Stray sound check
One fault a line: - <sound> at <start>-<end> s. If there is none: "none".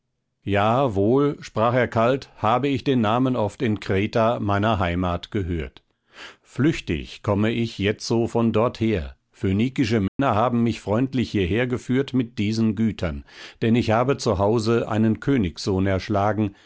- dropout at 10.1-10.2 s